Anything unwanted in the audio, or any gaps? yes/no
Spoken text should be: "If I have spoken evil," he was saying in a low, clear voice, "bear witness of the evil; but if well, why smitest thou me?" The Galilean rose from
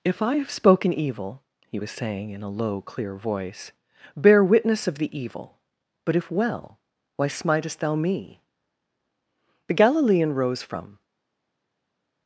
no